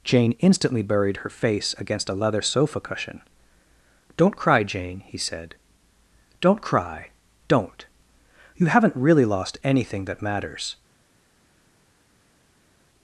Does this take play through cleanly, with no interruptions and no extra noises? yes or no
yes